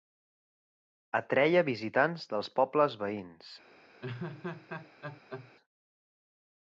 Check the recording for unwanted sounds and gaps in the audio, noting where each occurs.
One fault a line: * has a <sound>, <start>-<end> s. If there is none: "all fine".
* has a laugh, 4.0-5.5 s